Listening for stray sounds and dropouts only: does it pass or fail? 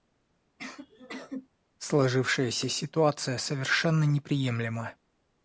fail